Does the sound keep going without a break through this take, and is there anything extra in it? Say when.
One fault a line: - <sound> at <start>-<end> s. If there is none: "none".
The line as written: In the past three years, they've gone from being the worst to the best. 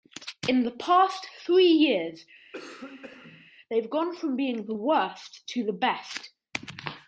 - cough at 2.5-3.5 s